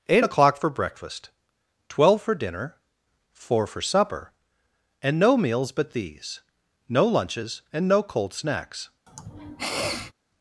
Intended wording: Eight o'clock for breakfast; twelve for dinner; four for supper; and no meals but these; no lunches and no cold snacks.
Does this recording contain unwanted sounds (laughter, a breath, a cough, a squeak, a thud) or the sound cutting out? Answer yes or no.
yes